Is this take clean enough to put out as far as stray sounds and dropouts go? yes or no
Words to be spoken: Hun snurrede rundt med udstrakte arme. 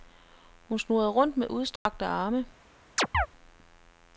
no